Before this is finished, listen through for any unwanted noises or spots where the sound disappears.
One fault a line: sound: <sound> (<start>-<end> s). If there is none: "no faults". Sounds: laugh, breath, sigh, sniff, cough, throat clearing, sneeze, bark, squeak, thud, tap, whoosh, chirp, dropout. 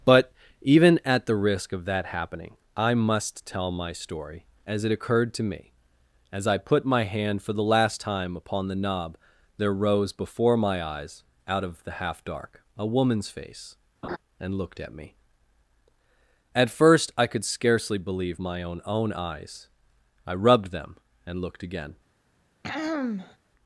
sound: laugh (14.0-14.2 s)
sound: throat clearing (22.6-23.4 s)